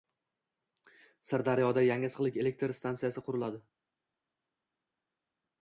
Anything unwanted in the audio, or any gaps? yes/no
no